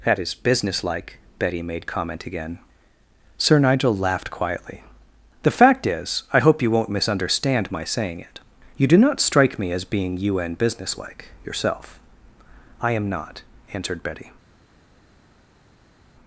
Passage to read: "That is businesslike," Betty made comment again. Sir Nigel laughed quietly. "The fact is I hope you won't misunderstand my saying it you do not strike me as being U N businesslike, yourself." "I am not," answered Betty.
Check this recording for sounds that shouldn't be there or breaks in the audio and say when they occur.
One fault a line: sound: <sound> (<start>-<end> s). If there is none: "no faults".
no faults